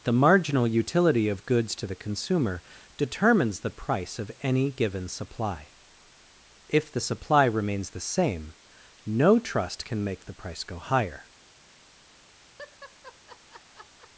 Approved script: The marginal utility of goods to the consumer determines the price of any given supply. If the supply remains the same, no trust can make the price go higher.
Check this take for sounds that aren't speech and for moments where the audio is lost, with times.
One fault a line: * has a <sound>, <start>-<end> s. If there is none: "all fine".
* has a laugh, 12.6-14.1 s